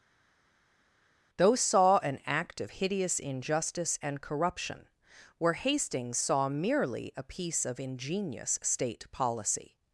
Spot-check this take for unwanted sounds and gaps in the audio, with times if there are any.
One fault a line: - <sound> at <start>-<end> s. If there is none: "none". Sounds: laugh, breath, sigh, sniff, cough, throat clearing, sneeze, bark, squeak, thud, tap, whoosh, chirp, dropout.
none